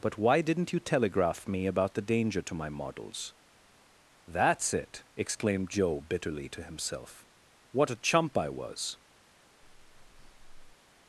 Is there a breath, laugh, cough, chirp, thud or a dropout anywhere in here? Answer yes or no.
yes